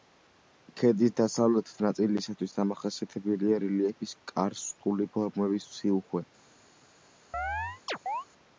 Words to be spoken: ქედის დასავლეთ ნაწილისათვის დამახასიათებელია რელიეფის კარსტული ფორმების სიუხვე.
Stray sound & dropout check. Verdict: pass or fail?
fail